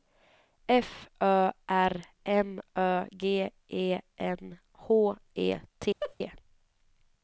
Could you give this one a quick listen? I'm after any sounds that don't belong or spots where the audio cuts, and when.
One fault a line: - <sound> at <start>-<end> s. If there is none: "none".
- laugh at 6.0-6.2 s